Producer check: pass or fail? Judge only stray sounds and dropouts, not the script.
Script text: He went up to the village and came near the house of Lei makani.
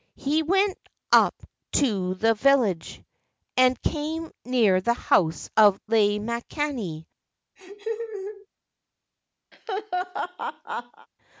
fail